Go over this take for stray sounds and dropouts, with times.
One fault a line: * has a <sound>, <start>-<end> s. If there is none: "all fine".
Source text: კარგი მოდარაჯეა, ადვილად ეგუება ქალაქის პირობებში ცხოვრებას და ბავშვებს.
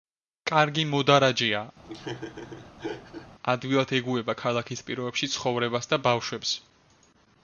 * has a laugh, 1.8-3.3 s